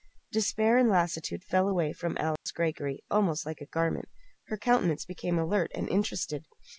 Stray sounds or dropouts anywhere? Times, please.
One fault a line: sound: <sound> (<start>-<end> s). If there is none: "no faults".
sound: dropout (2.4-2.5 s)